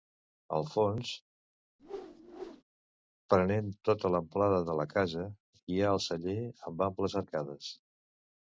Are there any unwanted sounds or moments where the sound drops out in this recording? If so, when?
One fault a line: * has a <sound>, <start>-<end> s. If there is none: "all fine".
* has a whoosh, 1.8-2.6 s